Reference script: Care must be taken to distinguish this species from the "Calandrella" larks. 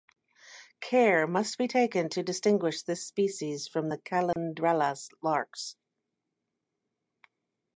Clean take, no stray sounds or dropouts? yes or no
no